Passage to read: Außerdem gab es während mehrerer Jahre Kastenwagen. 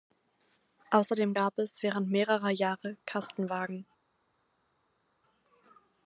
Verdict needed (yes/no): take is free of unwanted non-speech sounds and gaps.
yes